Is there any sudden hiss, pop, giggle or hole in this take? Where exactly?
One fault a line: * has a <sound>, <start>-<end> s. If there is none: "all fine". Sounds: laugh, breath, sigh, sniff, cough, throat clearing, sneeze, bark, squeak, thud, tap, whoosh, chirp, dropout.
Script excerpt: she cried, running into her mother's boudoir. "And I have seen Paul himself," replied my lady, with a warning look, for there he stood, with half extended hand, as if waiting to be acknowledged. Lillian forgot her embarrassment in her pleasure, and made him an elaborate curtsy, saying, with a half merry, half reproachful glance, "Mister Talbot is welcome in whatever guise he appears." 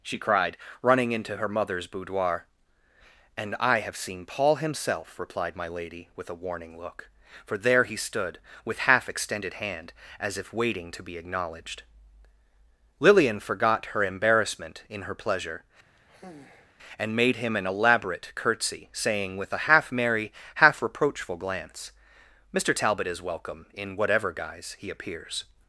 * has a sigh, 16.0-16.7 s